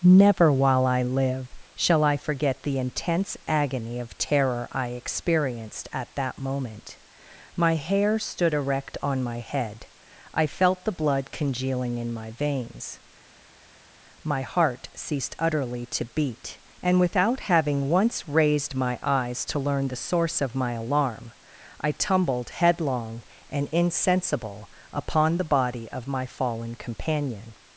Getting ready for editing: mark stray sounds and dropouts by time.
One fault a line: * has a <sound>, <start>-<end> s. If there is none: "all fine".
all fine